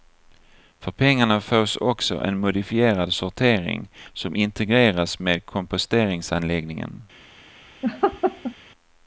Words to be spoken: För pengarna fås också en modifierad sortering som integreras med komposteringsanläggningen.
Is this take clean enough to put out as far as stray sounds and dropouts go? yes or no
no